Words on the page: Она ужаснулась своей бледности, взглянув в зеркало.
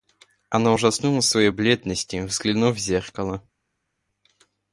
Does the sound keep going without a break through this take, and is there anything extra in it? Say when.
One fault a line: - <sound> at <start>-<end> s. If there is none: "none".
none